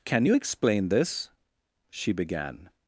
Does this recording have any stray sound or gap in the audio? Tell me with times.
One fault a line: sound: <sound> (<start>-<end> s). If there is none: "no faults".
no faults